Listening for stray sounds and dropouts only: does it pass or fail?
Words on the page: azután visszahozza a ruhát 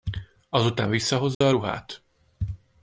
fail